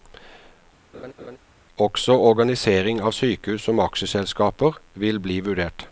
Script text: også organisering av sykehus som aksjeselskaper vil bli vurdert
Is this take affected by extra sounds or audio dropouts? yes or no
yes